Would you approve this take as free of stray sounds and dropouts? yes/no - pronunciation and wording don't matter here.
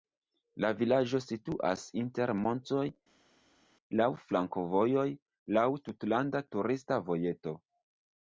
yes